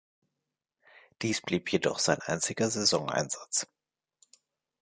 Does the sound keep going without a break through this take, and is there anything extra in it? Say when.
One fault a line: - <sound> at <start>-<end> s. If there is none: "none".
none